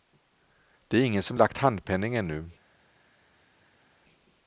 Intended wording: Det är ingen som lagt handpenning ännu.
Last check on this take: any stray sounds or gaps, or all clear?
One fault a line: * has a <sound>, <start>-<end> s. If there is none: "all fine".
all fine